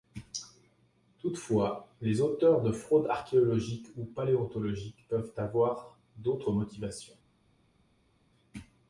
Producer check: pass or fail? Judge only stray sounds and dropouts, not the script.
pass